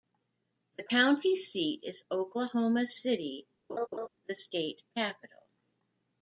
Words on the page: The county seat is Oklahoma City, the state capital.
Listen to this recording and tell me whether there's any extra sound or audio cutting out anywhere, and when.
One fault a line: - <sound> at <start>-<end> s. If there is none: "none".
- laugh at 3.7-4.1 s